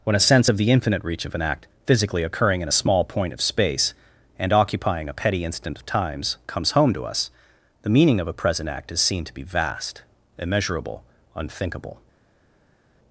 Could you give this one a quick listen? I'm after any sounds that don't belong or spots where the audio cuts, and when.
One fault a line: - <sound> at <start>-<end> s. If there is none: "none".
none